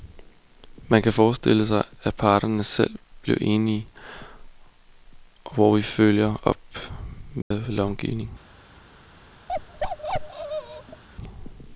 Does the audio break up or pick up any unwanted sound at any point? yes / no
yes